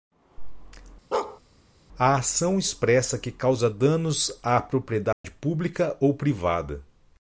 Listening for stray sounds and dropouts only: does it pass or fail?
fail